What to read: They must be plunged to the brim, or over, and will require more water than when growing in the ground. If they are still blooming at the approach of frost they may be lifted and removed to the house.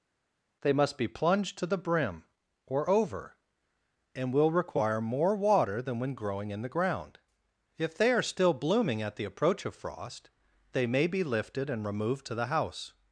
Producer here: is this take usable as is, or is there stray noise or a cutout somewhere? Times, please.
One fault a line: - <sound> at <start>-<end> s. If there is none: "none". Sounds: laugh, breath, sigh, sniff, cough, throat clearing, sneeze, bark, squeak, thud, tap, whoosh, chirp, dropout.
none